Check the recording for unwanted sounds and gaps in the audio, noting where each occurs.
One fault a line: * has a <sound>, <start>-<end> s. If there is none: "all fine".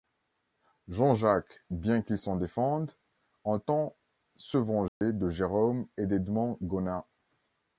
* has a dropout, 4.9-5.0 s